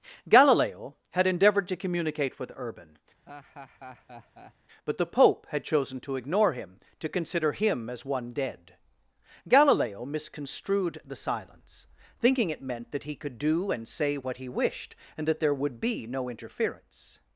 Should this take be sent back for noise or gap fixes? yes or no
yes